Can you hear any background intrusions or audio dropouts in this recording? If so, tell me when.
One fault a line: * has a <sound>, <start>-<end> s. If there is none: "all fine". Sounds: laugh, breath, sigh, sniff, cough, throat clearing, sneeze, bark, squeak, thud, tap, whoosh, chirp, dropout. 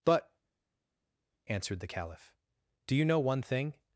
all fine